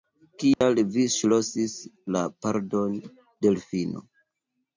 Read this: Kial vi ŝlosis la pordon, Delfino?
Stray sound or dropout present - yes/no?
yes